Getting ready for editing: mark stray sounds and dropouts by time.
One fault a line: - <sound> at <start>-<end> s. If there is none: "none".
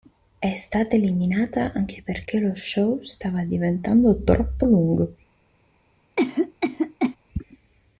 - cough at 6.2-7.2 s